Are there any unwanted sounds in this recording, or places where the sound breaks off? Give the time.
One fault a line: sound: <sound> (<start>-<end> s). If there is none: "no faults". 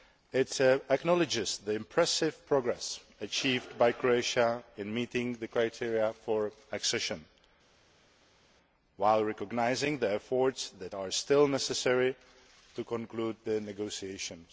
no faults